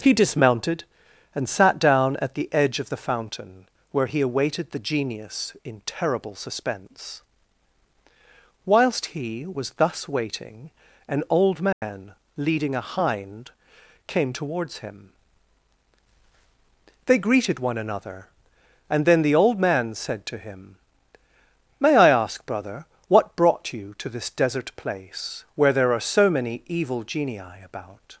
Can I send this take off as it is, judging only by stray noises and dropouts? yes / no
no